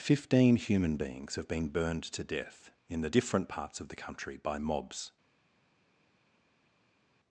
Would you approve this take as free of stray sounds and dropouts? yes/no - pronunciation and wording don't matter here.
yes